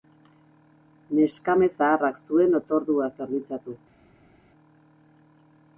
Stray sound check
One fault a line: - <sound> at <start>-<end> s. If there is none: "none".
none